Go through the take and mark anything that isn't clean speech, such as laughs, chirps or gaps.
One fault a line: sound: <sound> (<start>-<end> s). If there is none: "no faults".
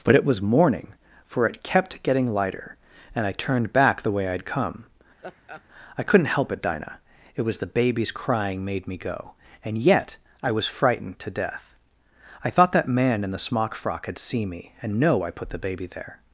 sound: laugh (5.2-5.6 s)